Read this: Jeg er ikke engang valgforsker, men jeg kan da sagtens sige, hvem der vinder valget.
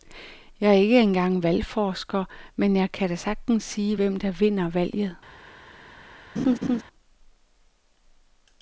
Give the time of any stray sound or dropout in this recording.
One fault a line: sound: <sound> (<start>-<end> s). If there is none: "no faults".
sound: laugh (6.4-6.8 s)